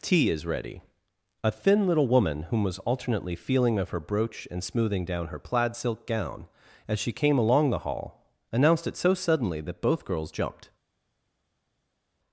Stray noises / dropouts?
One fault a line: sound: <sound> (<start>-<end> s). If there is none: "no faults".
no faults